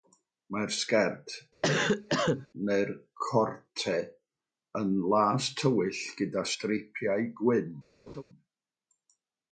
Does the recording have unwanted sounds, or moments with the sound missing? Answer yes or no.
yes